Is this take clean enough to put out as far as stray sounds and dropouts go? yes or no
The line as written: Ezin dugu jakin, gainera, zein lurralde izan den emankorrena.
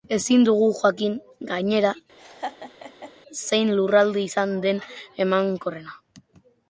no